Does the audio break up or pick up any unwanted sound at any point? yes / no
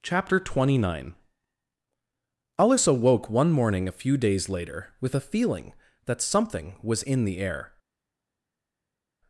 no